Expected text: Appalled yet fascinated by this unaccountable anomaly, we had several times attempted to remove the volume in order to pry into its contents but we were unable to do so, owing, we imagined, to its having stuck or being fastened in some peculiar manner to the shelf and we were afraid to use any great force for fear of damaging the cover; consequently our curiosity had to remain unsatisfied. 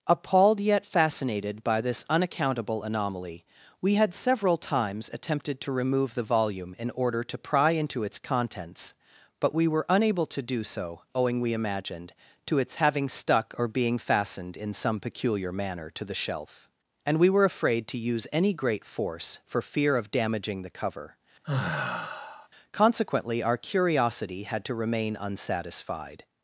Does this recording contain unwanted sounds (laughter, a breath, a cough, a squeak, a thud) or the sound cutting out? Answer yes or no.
yes